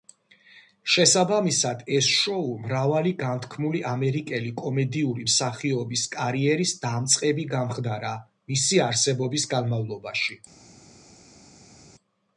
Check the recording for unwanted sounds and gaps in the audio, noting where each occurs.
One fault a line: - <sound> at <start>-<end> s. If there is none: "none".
none